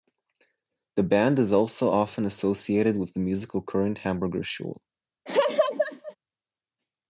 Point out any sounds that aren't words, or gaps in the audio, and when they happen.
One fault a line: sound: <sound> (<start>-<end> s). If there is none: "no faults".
sound: laugh (5.3-6.2 s)